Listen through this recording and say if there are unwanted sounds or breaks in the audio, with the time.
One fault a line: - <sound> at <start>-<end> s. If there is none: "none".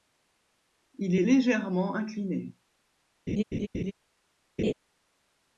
- laugh at 3.3-3.9 s
- laugh at 4.6-4.7 s